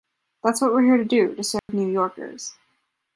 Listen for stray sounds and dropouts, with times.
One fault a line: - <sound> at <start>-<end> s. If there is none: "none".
- dropout at 1.6-1.7 s